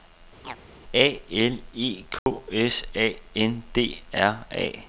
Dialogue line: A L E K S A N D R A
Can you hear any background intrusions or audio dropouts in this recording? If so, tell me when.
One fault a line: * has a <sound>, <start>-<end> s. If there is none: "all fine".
* has a chirp, 0.4-0.6 s
* has a dropout, 2.2-2.3 s